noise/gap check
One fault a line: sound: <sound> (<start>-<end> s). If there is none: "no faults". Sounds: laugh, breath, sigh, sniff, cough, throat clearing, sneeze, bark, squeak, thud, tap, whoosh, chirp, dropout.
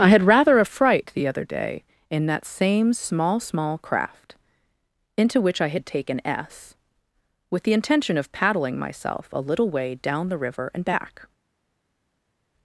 no faults